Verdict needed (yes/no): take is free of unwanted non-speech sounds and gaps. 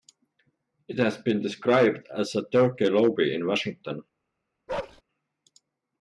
no